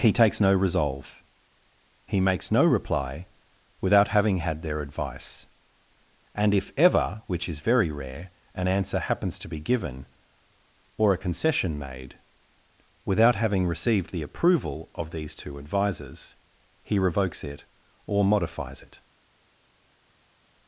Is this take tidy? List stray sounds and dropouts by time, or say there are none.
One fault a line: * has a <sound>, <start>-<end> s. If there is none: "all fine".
all fine